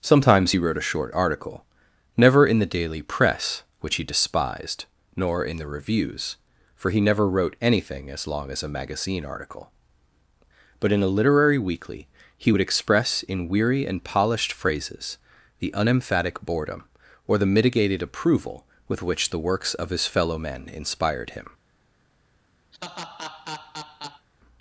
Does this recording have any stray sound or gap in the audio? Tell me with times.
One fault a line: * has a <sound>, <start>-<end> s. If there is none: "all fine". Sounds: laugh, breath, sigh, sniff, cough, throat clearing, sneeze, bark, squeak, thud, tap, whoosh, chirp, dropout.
* has a laugh, 22.7-24.3 s